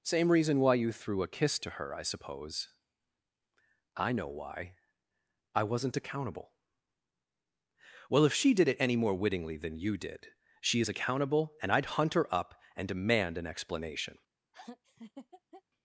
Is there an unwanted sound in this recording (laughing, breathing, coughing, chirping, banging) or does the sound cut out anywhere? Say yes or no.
yes